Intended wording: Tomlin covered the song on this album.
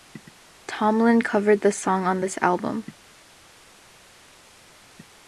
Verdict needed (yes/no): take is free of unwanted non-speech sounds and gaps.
yes